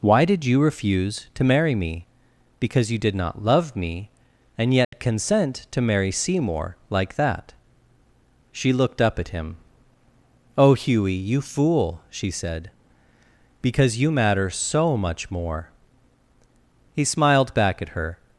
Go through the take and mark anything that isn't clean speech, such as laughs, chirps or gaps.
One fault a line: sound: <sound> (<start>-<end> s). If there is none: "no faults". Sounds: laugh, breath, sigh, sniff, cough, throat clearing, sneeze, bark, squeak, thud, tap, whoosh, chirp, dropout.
sound: dropout (4.8-4.9 s)